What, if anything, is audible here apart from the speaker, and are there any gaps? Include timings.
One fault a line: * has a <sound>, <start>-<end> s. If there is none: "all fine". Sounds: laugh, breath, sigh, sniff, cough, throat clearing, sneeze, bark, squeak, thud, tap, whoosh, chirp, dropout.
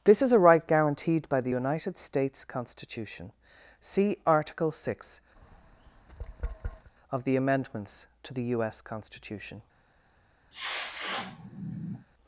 * has a tap, 5.4-6.9 s
* has a sneeze, 10.5-12.1 s